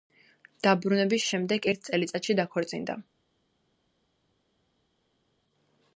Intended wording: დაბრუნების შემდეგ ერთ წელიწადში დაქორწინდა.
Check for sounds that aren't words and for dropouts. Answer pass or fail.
pass